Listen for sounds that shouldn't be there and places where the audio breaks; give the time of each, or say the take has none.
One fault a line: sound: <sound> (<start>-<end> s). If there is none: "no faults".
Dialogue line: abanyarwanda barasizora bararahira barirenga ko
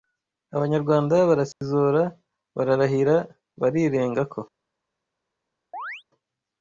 sound: dropout (1.5-1.6 s)
sound: chirp (5.7-6.0 s)